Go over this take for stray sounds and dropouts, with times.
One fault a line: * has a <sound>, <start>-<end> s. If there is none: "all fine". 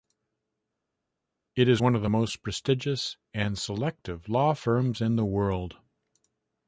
all fine